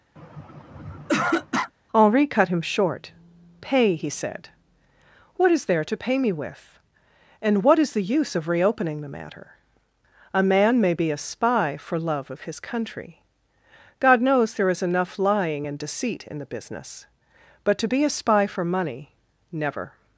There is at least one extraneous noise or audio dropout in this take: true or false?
true